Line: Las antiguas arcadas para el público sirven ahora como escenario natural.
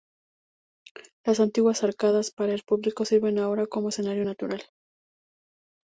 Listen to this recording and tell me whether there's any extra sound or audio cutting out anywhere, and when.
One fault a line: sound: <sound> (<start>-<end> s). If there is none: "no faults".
no faults